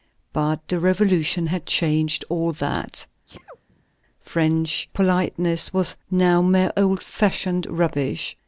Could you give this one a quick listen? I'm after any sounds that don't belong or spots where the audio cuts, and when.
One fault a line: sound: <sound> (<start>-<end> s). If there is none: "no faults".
sound: sneeze (3.3-3.8 s)